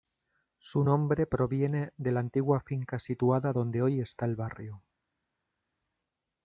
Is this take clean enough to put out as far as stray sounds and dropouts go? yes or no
yes